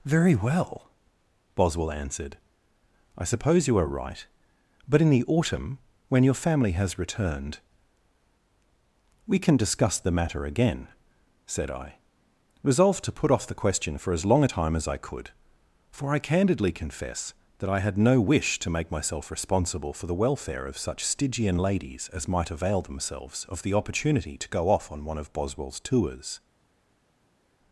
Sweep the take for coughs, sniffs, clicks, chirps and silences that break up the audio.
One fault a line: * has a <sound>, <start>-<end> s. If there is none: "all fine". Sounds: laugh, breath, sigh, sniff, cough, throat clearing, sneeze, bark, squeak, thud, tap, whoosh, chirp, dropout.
all fine